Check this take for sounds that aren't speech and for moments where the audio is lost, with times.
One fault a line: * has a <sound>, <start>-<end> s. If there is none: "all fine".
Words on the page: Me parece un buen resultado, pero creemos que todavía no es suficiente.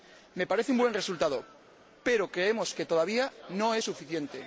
all fine